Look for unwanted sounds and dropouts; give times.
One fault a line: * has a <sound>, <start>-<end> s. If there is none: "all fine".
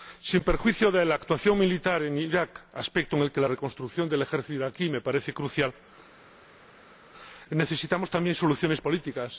all fine